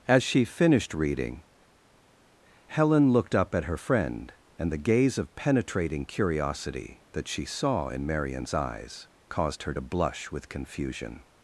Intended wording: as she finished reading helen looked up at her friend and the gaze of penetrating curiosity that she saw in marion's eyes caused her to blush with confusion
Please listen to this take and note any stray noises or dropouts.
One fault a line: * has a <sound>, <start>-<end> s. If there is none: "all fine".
all fine